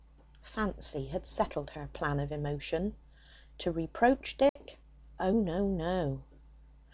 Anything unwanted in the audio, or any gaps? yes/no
yes